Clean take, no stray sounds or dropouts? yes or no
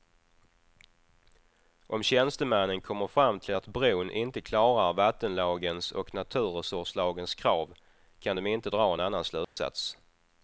no